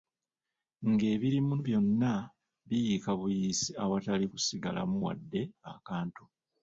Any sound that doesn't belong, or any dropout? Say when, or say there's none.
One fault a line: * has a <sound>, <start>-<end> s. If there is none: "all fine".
all fine